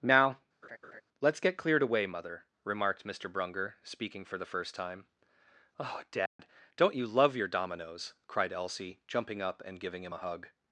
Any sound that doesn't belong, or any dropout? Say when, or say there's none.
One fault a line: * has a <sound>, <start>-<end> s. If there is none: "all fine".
* has a laugh, 0.6-1.0 s
* has a dropout, 6.3-6.4 s